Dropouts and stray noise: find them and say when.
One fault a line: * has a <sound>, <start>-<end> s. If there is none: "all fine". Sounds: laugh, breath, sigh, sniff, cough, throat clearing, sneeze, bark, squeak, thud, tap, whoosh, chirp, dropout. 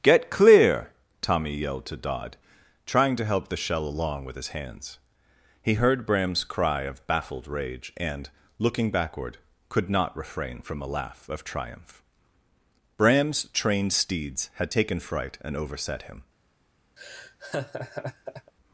* has a laugh, 17.0-18.5 s